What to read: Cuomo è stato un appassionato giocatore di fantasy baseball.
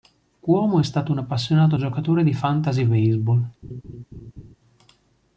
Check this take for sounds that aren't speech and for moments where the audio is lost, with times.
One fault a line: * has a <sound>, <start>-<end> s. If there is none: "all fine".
* has a laugh, 3.6-4.6 s